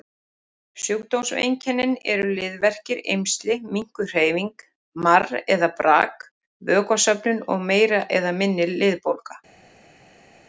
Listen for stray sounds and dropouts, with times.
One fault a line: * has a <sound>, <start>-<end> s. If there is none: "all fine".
all fine